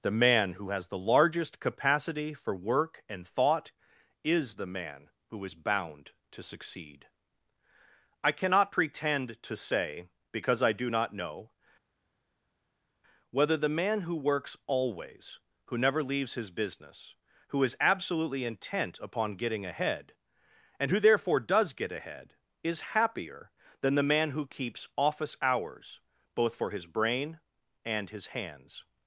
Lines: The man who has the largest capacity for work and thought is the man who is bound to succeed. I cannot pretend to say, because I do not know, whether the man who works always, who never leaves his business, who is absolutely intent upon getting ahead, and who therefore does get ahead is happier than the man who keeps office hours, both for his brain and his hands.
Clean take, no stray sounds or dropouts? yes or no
yes